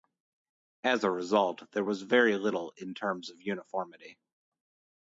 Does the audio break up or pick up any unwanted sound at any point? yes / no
no